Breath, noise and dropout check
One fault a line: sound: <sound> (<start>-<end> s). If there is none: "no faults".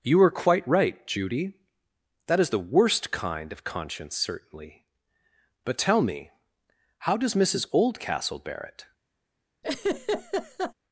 sound: laugh (9.6-10.7 s)